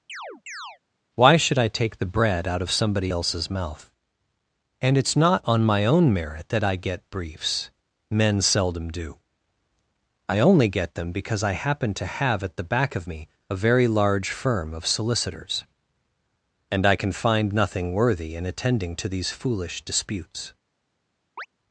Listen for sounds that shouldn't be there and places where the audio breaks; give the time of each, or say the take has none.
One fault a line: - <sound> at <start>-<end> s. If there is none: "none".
- chirp at 0.1-0.8 s
- chirp at 21.4-21.5 s